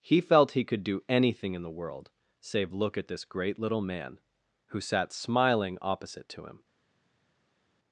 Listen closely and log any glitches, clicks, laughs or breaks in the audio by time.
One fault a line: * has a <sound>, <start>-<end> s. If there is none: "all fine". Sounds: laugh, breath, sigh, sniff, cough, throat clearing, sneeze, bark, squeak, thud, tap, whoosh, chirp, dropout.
all fine